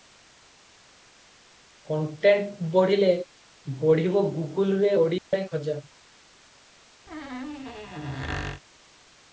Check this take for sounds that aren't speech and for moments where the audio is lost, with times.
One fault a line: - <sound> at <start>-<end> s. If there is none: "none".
- dropout at 5.2-5.3 s
- squeak at 7.1-8.6 s